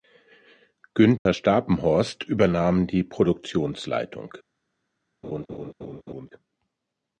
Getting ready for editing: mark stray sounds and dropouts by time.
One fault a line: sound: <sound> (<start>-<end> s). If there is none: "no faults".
sound: dropout (1.2-1.3 s)
sound: laugh (5.2-6.3 s)